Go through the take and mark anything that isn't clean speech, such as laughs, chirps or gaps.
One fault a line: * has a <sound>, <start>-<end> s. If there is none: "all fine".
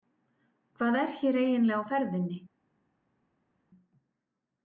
all fine